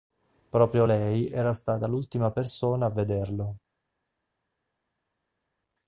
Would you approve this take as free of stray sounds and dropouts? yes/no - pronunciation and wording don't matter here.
yes